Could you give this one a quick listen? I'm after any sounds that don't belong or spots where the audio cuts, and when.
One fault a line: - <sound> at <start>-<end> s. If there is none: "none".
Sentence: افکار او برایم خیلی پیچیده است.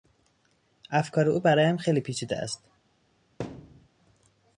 - thud at 3.4-3.9 s